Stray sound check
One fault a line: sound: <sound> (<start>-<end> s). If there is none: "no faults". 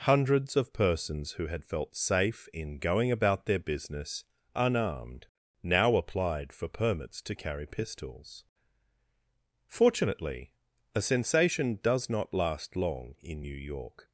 no faults